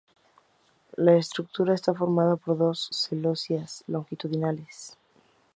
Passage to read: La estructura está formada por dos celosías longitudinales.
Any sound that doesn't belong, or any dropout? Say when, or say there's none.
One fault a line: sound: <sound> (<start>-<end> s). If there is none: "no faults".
no faults